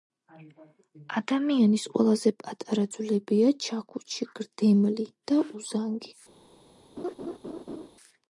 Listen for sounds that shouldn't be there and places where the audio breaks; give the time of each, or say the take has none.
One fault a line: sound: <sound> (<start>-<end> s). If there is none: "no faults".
sound: laugh (7.0-7.9 s)